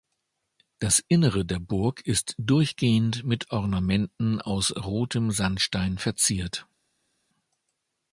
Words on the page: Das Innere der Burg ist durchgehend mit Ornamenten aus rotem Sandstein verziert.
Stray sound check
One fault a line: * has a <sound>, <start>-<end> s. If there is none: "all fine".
all fine